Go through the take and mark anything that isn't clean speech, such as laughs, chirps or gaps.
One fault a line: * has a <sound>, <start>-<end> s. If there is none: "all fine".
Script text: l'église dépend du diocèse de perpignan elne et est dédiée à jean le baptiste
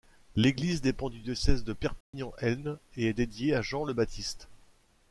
* has a dropout, 2.0-2.1 s